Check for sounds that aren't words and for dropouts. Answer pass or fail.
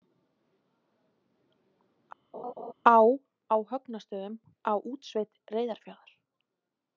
fail